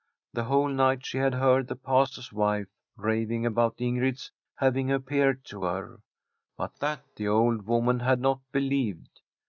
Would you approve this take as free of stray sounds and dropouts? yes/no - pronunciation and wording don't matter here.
yes